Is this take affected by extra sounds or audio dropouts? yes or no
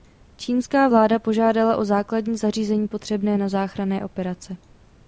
no